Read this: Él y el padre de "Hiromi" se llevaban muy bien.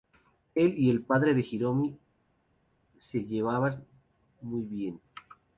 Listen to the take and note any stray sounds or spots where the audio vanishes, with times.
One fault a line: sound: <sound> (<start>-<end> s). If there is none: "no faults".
no faults